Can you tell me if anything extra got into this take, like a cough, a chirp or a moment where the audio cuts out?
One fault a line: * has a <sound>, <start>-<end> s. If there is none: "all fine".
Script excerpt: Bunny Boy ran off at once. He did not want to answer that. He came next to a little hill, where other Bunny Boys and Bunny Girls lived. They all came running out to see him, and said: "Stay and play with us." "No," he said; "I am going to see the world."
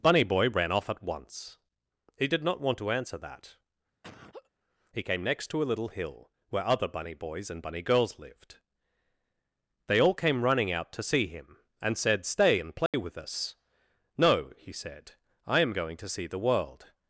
* has a laugh, 4.0-4.5 s
* has a dropout, 12.9-12.9 s